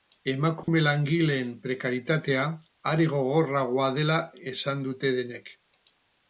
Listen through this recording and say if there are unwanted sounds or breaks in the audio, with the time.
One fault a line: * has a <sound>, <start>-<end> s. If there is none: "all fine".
* has a dropout, 0.6-0.7 s